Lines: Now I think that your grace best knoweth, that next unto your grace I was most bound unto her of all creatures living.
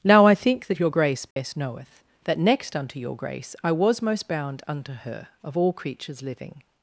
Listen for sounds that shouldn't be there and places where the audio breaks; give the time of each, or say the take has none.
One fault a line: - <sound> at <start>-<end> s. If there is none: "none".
- dropout at 1.3-1.4 s